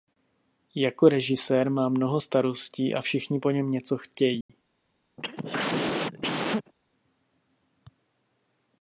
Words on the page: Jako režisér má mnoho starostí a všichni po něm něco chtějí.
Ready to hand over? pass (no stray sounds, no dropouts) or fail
fail